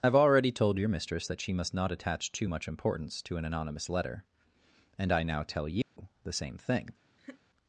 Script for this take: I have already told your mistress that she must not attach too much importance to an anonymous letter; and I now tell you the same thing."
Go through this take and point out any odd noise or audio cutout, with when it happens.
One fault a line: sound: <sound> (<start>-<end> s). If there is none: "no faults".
sound: dropout (5.8-6.0 s)
sound: laugh (7.2-7.4 s)